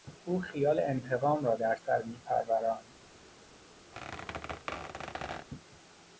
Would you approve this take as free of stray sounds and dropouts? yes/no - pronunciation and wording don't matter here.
no